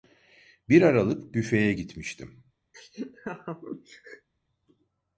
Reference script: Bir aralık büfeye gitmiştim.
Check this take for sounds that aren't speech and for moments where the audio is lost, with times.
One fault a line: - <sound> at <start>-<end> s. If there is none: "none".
- laugh at 2.7-4.3 s